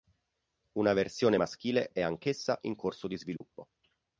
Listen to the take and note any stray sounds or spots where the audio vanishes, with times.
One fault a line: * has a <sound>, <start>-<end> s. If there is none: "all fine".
* has a dropout, 3.4-3.4 s